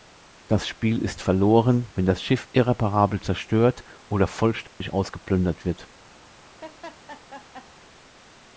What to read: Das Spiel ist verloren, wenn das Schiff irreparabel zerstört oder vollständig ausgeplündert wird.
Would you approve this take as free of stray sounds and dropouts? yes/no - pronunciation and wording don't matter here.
no